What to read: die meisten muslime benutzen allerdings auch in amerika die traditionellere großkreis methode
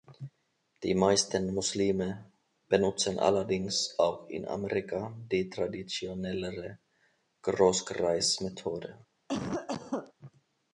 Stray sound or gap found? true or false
true